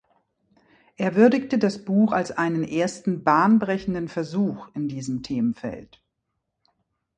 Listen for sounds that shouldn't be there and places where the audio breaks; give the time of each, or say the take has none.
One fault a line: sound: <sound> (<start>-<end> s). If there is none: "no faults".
no faults